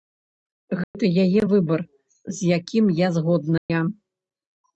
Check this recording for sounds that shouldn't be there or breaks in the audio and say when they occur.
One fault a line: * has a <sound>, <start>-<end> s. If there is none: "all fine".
* has a dropout, 0.8-0.9 s
* has a dropout, 3.6-3.7 s